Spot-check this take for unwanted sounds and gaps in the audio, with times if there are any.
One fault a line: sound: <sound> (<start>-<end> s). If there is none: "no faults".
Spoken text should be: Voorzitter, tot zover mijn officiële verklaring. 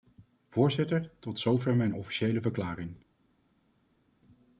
no faults